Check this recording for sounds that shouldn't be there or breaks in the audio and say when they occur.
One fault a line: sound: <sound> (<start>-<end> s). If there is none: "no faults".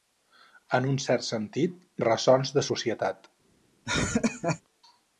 sound: laugh (3.8-4.6 s)